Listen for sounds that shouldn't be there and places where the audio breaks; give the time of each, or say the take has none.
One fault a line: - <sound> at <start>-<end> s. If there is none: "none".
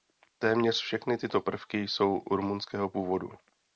none